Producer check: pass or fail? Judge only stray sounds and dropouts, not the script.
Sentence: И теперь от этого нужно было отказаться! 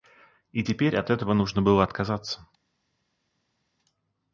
pass